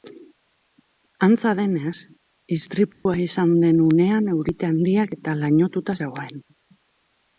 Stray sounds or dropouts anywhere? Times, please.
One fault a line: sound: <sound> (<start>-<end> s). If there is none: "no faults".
sound: dropout (2.9-3.1 s)